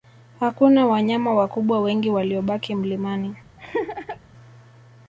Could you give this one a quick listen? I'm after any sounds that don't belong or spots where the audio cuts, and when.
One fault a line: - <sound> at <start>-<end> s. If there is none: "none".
- laugh at 3.6-4.2 s